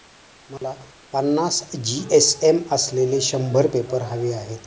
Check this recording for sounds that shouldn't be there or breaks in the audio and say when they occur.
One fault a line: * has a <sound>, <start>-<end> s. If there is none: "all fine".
* has a dropout, 0.6-0.6 s